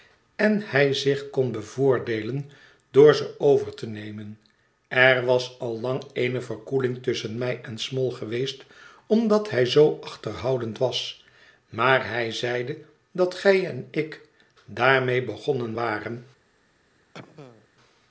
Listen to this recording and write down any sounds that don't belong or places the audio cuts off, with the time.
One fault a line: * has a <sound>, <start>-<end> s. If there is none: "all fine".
* has a cough, 17.1-17.7 s